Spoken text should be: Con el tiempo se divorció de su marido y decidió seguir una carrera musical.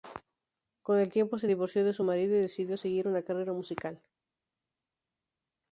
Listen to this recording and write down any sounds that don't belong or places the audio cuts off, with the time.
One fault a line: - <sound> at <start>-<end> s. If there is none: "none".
none